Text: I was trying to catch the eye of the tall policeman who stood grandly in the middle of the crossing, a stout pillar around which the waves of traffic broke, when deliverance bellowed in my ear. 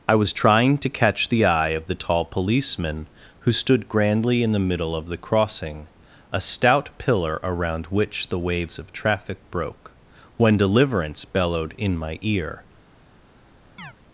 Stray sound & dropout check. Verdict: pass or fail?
fail